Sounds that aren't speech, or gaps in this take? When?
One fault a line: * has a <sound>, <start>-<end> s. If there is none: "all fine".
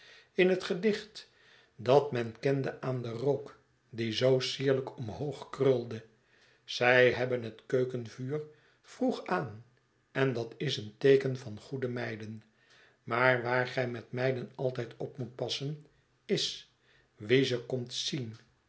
all fine